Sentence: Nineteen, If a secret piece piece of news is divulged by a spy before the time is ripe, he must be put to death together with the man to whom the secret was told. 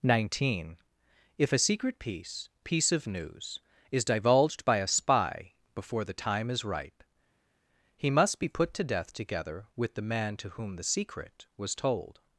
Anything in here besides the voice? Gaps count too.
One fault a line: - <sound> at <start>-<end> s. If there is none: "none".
none